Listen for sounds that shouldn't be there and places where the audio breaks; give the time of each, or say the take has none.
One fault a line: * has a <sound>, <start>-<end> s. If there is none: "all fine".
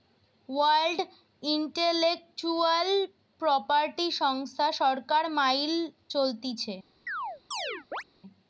* has a chirp, 7.1-8.0 s